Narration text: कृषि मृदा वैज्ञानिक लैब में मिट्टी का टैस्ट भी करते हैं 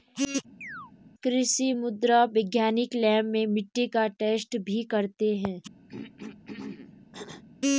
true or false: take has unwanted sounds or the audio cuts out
true